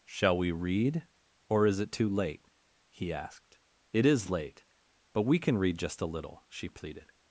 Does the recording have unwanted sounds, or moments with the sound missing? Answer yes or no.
no